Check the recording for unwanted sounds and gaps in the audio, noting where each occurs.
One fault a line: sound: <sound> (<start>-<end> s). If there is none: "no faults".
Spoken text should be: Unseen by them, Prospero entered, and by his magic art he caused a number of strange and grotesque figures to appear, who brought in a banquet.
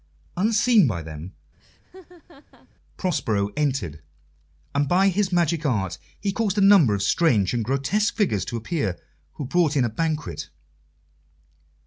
sound: laugh (1.6-2.7 s)